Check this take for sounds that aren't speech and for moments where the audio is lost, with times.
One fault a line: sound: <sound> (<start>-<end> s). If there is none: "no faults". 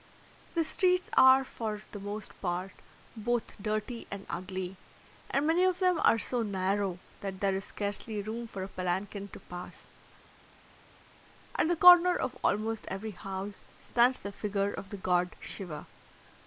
no faults